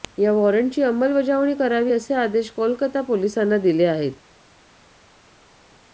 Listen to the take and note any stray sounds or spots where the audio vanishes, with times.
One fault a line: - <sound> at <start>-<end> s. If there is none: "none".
none